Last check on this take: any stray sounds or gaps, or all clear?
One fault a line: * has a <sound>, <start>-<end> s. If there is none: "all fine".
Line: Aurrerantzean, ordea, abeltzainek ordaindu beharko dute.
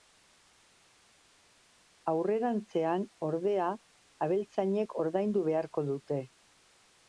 all fine